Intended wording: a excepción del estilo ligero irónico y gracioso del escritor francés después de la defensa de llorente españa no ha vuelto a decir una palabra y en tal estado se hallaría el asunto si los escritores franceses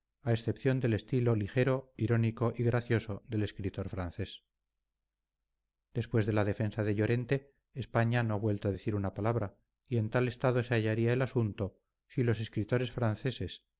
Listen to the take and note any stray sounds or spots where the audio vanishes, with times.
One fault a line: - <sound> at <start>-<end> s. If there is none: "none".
none